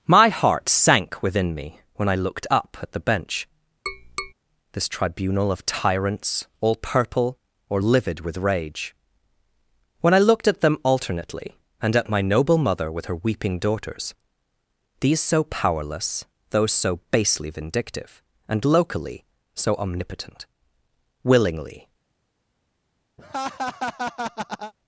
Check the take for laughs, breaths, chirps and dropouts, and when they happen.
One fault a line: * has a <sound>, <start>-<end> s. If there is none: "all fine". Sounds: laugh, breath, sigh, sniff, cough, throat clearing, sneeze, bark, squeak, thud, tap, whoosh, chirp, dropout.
* has a tap, 3.9-4.3 s
* has a laugh, 23.2-24.7 s